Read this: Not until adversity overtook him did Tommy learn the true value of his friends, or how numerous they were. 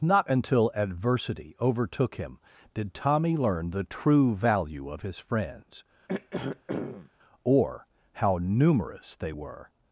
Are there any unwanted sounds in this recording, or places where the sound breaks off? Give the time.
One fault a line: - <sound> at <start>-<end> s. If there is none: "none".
- throat clearing at 6.1-7.1 s